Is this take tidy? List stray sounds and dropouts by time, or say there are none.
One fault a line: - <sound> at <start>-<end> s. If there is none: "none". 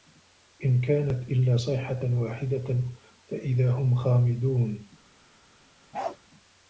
- bark at 5.9-6.2 s